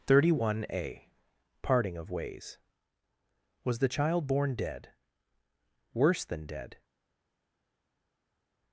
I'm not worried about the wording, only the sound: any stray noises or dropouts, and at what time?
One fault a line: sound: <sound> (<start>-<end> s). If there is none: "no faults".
no faults